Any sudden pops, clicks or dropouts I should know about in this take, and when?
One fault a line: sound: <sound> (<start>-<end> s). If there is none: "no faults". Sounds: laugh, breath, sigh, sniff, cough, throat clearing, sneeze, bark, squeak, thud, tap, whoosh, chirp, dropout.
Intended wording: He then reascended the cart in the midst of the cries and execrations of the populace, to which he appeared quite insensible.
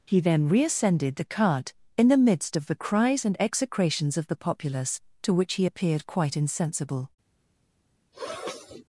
sound: sniff (8.1-8.8 s)